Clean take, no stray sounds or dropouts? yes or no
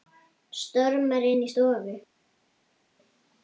yes